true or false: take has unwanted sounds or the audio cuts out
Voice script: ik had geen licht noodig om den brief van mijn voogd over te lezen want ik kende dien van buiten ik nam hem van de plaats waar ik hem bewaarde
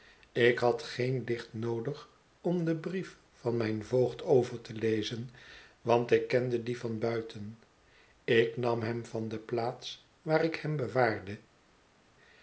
false